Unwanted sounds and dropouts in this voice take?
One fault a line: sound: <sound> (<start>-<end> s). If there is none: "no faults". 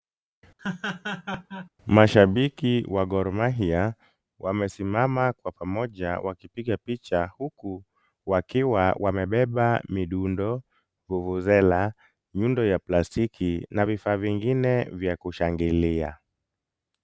sound: laugh (0.6-1.7 s)